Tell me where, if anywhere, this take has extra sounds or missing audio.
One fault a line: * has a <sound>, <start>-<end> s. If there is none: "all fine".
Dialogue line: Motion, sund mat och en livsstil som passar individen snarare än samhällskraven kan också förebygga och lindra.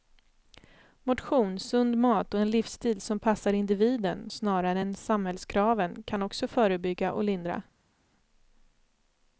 all fine